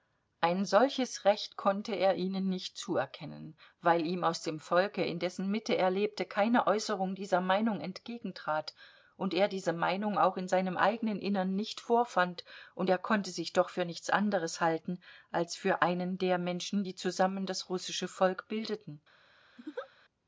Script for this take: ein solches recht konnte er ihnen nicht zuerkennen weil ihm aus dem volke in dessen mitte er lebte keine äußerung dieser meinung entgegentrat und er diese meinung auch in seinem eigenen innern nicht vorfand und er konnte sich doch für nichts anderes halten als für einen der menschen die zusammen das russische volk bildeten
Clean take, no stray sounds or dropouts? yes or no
no